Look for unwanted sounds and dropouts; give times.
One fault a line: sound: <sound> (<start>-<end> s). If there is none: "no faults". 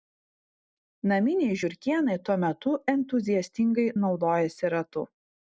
no faults